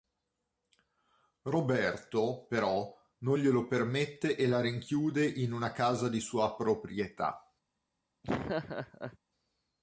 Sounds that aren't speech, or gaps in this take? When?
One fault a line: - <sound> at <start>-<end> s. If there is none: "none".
- laugh at 8.2-9.2 s